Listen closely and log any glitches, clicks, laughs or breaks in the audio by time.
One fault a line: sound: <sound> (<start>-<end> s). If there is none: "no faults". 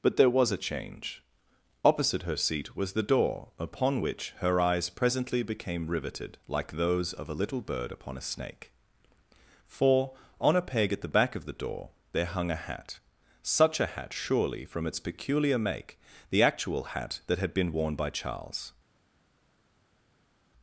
no faults